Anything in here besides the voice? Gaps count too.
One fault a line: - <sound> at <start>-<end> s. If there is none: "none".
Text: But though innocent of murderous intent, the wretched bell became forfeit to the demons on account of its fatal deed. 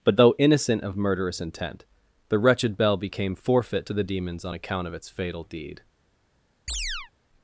- chirp at 6.7-7.1 s